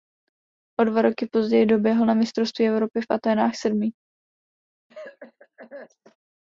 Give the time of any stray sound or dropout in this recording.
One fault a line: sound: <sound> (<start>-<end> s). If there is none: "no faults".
sound: cough (4.9-6.2 s)